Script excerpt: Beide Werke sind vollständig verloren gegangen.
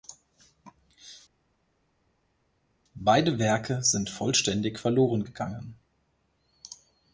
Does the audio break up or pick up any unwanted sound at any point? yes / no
no